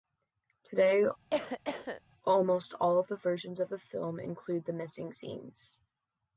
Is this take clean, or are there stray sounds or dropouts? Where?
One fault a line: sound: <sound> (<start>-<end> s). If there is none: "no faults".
sound: cough (1.3-2.0 s)